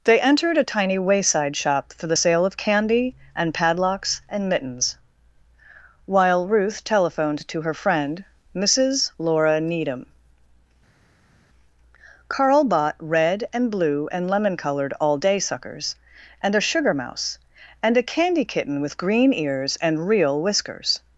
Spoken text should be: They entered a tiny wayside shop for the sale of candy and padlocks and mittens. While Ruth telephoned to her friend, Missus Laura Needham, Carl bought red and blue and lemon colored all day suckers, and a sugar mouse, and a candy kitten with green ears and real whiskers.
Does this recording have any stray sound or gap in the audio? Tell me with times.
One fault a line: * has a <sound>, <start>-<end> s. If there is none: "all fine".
all fine